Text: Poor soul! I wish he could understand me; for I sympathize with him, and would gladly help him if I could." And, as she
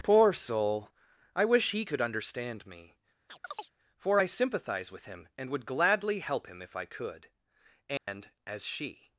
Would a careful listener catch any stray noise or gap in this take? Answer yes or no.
yes